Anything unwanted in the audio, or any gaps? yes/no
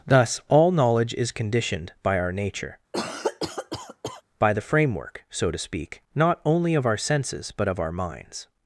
yes